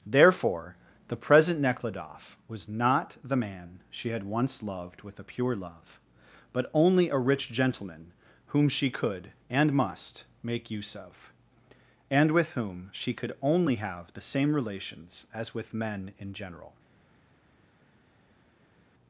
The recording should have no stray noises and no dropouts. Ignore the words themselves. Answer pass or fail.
pass